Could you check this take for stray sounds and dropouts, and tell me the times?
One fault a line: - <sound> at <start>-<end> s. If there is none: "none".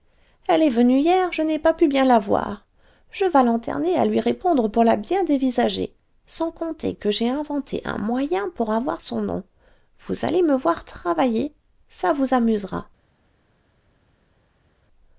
none